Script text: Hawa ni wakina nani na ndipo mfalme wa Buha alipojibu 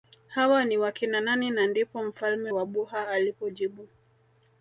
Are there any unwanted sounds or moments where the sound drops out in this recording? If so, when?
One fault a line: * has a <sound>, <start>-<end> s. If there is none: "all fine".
all fine